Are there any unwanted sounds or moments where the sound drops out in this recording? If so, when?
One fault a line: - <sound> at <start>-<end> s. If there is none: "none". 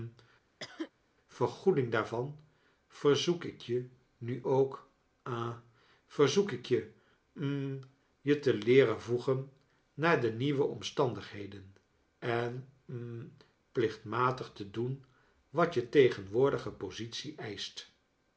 - cough at 0.6-0.9 s